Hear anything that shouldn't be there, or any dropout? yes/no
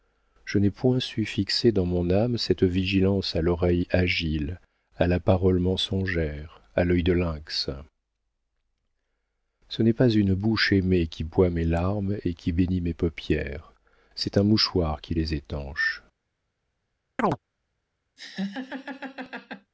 yes